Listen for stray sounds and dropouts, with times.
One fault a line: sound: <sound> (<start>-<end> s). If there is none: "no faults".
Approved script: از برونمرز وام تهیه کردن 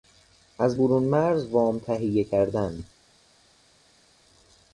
no faults